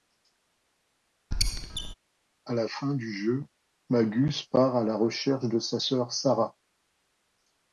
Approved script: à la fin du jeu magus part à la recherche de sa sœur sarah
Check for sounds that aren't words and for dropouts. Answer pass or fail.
fail